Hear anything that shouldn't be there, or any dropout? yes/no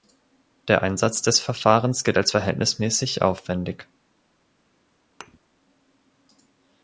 yes